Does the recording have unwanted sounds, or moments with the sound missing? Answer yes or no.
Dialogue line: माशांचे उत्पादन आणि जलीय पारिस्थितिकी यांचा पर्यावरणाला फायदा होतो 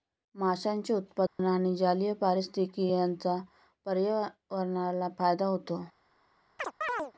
yes